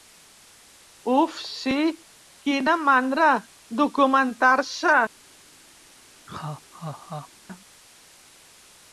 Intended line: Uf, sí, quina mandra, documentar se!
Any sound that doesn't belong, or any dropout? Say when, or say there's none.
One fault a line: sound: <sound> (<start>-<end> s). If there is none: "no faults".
sound: laugh (6.3-7.3 s)